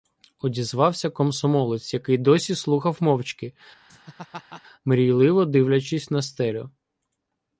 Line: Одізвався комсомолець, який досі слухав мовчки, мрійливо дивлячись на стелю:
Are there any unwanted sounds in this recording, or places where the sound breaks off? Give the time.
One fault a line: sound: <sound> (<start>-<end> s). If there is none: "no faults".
sound: laugh (3.9-4.6 s)